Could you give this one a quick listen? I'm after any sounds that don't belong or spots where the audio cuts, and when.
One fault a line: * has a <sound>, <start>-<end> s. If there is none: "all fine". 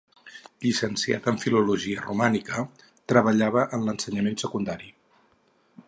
all fine